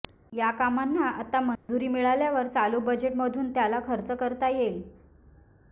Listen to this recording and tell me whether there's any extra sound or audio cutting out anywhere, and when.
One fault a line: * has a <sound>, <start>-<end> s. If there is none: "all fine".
* has a dropout, 1.6-1.7 s